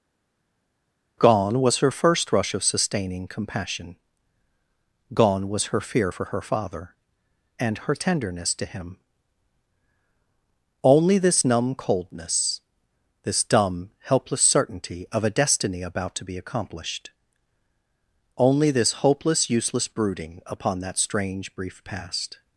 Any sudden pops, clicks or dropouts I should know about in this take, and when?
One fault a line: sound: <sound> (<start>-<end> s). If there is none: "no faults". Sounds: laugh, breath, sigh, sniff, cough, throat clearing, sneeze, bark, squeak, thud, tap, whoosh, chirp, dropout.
no faults